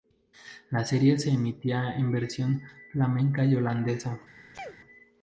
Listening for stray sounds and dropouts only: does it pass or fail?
fail